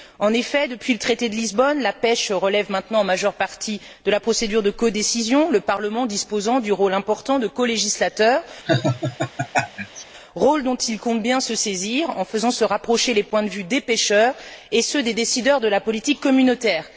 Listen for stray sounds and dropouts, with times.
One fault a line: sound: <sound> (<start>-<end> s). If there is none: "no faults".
sound: laugh (8.7-10.0 s)